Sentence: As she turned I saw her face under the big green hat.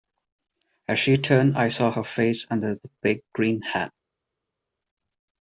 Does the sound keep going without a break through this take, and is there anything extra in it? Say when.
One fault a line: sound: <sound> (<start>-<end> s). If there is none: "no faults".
no faults